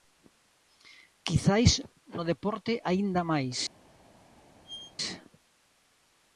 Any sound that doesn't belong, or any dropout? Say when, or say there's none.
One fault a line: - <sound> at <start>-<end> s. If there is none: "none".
- squeak at 4.6-5.0 s